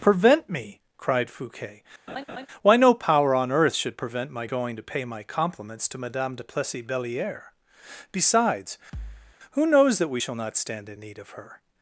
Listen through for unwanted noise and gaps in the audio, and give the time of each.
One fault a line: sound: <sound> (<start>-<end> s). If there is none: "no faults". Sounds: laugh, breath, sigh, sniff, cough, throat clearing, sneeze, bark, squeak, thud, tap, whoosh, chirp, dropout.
sound: laugh (2.1-2.5 s)
sound: thud (8.9-9.4 s)